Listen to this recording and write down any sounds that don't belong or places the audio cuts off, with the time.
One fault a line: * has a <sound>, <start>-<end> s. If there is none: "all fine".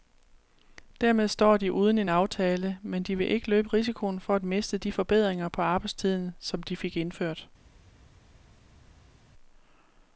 all fine